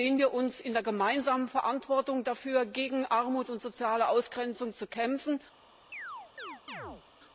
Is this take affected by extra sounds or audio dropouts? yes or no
yes